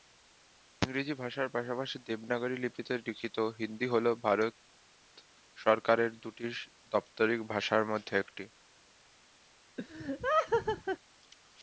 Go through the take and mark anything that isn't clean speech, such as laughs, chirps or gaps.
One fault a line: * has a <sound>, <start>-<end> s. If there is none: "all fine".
* has a laugh, 9.8-11.0 s